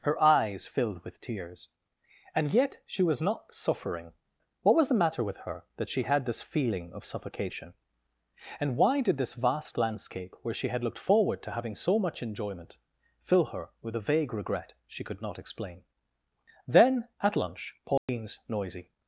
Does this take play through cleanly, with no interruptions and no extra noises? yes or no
no